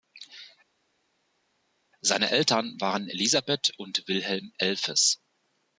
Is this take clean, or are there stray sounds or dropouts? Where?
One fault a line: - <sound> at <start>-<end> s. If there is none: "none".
none